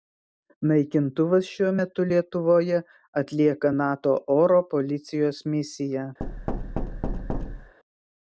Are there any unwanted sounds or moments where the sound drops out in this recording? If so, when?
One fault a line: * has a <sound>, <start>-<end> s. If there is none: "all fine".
* has a thud, 6.2-7.7 s